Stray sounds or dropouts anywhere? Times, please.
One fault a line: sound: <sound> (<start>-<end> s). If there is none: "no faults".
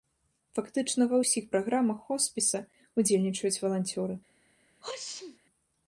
sound: sneeze (4.8-5.4 s)